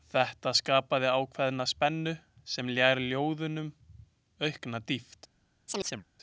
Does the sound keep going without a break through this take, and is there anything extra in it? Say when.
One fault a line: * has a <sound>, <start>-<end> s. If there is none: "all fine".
* has a chirp, 5.7-6.1 s